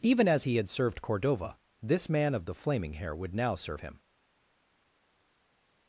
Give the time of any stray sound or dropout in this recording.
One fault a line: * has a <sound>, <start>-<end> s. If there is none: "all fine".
all fine